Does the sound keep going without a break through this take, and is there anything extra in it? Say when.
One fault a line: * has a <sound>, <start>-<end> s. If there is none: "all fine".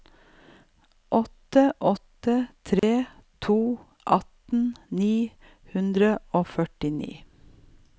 * has a dropout, 2.8-2.8 s